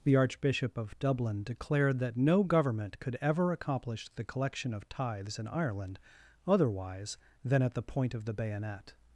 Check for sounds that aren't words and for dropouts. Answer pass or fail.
pass